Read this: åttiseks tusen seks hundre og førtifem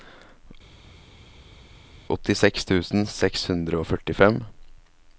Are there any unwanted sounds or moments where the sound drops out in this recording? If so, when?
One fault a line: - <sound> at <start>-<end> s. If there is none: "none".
none